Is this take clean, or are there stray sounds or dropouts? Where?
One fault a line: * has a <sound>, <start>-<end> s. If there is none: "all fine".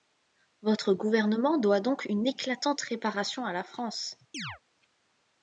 * has a chirp, 4.3-4.6 s